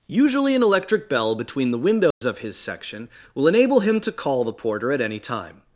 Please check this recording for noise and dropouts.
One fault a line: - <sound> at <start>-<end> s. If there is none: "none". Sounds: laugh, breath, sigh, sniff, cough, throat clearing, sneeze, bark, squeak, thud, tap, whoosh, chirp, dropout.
- dropout at 2.1-2.2 s